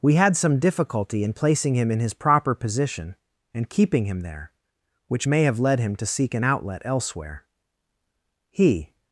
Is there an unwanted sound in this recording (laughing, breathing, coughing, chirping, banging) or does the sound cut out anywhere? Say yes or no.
no